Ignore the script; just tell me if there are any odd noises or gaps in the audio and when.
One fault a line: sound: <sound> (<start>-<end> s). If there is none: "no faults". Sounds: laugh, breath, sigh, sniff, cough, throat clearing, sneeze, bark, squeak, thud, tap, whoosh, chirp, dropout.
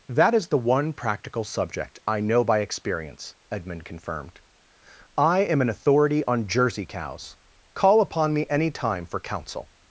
no faults